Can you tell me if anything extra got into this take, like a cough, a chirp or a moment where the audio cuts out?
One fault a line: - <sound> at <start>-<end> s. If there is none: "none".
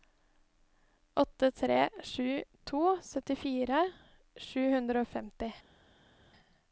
none